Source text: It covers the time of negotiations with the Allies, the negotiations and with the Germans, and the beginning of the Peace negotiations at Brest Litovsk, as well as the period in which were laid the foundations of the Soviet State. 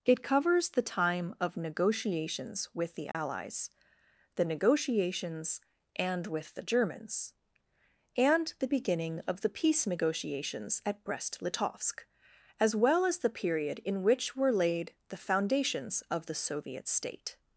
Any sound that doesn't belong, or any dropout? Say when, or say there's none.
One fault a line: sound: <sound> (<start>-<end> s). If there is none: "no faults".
sound: dropout (3.1-3.1 s)